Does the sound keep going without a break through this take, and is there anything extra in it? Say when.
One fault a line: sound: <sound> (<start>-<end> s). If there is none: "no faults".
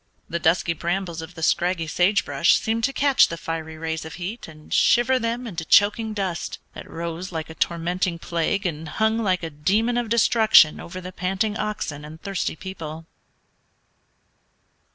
no faults